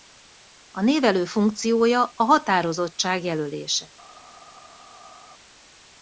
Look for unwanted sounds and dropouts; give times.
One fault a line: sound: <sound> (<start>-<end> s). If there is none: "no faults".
no faults